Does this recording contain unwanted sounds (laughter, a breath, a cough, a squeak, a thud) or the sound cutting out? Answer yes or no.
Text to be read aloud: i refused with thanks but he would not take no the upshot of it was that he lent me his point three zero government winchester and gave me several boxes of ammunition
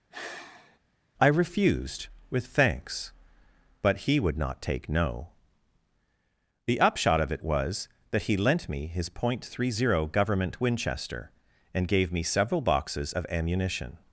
yes